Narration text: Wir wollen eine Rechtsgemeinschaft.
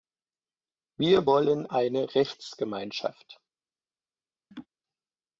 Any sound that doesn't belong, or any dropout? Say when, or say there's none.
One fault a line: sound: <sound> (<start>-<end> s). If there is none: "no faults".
sound: laugh (4.5-4.7 s)